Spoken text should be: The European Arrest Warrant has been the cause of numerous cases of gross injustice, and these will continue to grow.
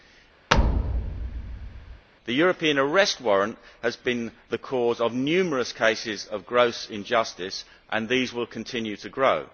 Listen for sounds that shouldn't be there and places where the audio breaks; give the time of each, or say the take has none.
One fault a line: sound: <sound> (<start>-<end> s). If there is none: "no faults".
sound: thud (0.5-2.1 s)